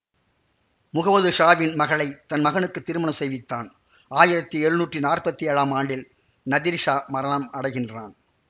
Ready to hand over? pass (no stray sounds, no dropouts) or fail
pass